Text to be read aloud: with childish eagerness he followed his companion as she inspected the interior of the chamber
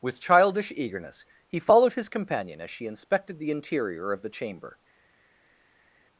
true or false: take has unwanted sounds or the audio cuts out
false